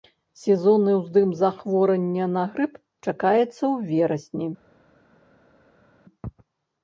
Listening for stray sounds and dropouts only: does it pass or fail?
pass